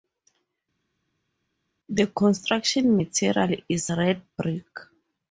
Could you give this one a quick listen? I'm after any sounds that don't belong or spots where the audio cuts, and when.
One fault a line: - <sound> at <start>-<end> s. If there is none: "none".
none